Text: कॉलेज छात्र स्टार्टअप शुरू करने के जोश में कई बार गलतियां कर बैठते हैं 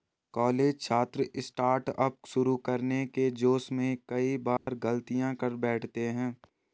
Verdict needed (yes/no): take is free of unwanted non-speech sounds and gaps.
no